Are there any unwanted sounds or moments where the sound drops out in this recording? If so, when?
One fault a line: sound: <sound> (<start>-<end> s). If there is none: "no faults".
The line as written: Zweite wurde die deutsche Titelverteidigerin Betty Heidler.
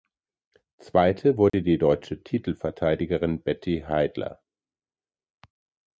sound: dropout (1.5-1.5 s)